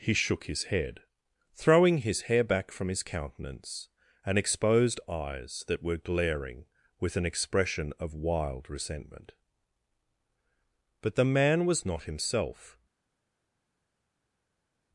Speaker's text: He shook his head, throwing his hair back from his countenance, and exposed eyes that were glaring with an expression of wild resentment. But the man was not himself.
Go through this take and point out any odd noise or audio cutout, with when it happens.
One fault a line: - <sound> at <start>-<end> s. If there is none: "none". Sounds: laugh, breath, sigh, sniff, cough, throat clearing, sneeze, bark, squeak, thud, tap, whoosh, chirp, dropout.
none